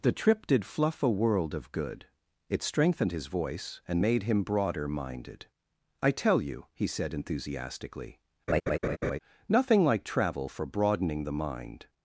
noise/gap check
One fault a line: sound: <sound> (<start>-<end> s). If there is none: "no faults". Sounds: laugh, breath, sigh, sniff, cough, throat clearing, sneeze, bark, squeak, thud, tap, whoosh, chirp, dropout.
sound: laugh (8.5-9.2 s)